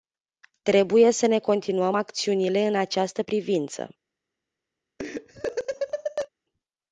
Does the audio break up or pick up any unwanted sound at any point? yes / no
yes